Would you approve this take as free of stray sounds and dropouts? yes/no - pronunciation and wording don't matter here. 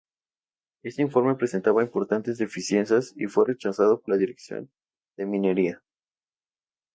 yes